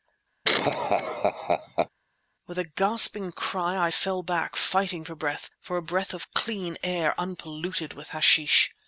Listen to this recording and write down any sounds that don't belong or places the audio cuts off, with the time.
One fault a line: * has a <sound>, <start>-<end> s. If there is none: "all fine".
* has a laugh, 0.4-1.9 s